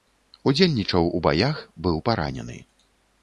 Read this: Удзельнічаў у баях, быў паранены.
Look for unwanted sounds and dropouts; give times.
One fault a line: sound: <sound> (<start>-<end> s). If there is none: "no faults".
no faults